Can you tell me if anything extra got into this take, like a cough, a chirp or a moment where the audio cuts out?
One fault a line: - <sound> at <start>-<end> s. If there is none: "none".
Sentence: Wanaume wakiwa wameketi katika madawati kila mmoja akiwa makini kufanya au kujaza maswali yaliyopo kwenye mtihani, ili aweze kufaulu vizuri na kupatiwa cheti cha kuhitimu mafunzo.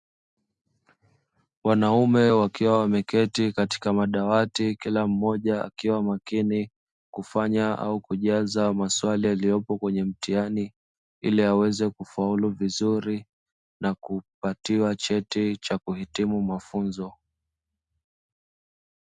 none